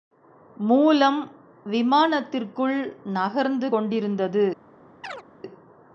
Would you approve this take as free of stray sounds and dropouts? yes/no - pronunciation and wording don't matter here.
no